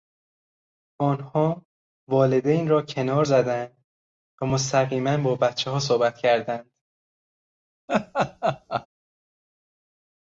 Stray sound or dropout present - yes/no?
yes